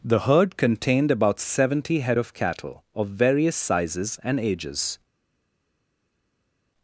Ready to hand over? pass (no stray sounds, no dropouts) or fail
pass